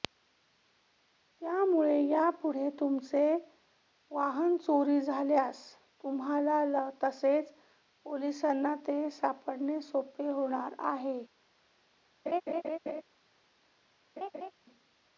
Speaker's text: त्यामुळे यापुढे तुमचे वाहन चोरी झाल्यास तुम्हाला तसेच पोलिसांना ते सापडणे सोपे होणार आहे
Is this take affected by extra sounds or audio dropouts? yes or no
yes